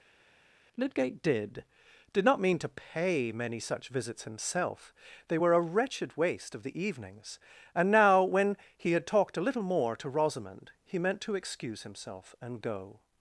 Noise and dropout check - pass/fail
pass